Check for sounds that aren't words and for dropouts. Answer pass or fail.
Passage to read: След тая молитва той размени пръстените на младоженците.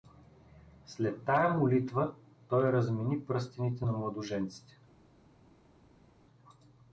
pass